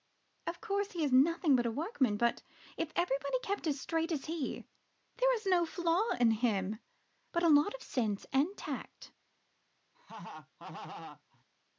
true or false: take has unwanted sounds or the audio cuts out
true